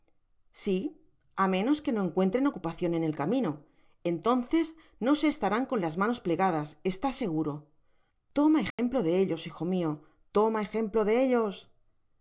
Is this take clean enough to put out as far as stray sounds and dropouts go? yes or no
no